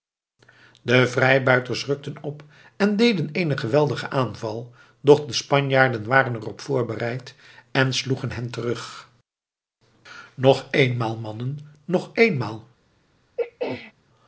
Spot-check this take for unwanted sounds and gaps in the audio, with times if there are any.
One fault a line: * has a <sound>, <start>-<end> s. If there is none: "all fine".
* has a throat clearing, 13.4-13.9 s